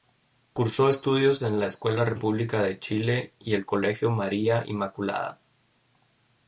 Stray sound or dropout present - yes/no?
no